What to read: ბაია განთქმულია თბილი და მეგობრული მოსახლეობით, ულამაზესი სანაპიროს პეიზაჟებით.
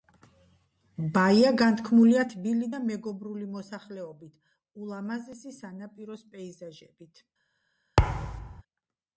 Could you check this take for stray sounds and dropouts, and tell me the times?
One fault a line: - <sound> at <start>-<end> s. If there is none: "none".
- thud at 8.0-8.6 s